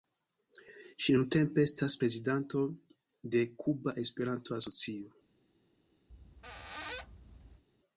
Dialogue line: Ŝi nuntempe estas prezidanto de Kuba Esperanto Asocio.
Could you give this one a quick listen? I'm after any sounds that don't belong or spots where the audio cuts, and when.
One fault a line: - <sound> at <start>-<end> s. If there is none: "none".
- squeak at 6.1-7.6 s